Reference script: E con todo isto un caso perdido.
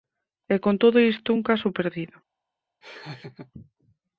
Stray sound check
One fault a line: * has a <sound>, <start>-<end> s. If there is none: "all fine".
* has a laugh, 2.8-3.5 s